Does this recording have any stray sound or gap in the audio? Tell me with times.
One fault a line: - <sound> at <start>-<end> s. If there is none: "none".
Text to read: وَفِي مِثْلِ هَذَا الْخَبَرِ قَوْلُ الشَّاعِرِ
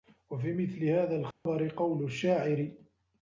- dropout at 1.3-1.5 s